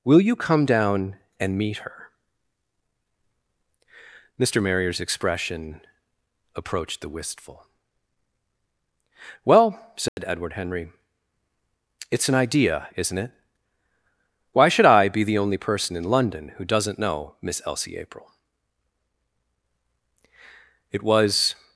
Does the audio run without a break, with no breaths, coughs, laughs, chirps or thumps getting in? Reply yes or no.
no